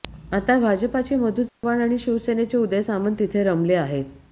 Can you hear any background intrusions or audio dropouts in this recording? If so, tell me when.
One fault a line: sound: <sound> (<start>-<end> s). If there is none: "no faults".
sound: dropout (1.5-1.6 s)